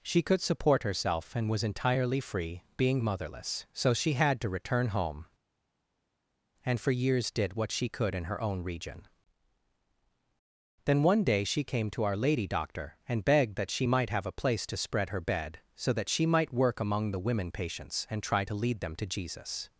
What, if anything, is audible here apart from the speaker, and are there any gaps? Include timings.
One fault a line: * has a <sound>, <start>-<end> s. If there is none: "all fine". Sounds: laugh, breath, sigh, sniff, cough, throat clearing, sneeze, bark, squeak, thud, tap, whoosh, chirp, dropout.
all fine